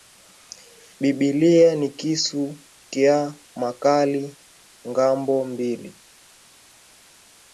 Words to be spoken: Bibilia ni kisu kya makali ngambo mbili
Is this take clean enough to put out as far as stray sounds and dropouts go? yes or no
yes